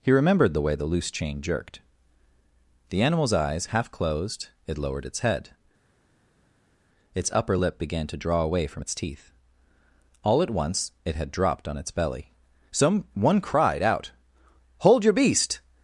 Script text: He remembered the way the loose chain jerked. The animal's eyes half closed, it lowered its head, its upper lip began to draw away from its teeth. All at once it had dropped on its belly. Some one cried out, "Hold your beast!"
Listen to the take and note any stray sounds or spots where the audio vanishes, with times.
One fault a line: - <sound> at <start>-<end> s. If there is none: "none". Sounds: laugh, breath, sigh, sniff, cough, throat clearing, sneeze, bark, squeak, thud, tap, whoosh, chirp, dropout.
none